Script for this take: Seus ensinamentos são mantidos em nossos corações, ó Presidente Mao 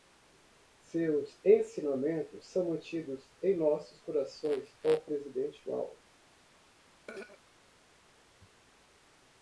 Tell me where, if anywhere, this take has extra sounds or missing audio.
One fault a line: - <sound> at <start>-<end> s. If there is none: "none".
- throat clearing at 7.1-7.4 s